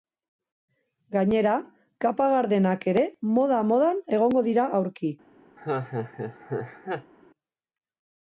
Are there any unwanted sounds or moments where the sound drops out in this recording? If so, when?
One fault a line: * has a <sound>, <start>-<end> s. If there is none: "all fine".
* has a laugh, 5.6-7.1 s